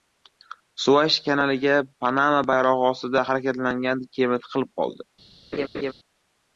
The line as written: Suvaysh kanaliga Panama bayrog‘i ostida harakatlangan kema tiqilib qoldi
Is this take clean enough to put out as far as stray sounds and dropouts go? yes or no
no